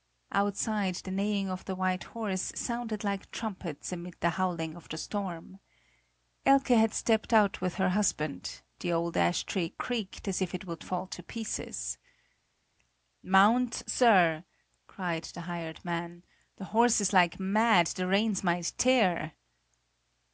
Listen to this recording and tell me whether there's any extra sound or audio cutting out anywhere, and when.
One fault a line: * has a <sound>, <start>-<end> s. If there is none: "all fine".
all fine